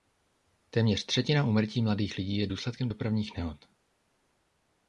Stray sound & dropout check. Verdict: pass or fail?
pass